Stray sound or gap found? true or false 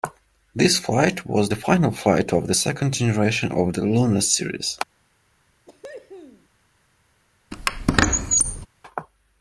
true